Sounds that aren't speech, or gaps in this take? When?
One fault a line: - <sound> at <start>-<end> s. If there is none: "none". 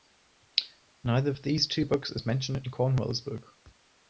none